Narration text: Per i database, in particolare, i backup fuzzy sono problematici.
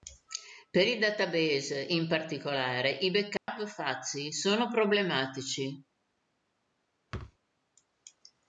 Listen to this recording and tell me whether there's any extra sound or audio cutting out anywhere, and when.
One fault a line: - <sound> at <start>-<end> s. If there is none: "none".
- dropout at 3.4-3.5 s
- thud at 7.1-7.4 s